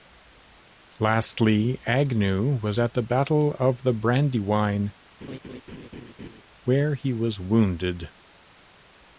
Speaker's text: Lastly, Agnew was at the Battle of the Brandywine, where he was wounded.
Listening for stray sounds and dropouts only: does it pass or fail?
fail